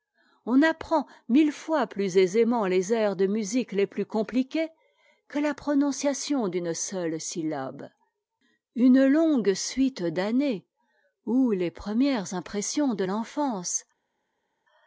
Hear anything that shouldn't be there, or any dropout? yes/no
no